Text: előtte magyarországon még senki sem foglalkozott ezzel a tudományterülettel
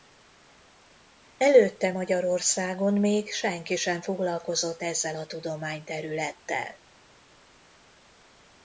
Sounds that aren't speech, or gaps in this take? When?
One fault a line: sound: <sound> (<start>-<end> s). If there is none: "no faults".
no faults